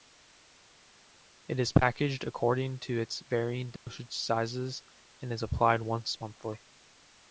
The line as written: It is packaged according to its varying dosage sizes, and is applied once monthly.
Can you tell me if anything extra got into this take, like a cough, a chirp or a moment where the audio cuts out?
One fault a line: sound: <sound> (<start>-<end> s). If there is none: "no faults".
sound: dropout (3.8-3.9 s)